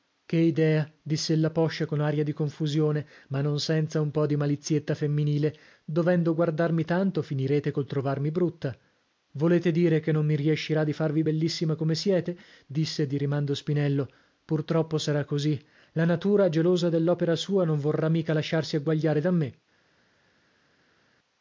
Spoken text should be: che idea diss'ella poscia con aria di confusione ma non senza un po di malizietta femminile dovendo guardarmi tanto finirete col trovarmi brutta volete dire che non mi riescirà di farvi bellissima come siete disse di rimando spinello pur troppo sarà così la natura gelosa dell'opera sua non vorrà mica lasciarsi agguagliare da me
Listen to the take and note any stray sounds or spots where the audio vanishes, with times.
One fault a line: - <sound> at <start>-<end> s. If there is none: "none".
none